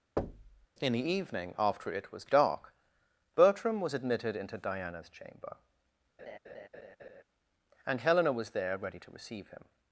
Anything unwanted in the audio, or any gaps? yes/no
yes